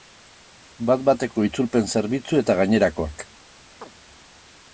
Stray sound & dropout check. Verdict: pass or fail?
fail